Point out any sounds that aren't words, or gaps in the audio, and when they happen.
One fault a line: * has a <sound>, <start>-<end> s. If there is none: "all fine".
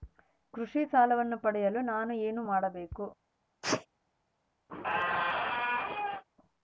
* has a sneeze, 3.6-3.9 s
* has a squeak, 4.7-6.2 s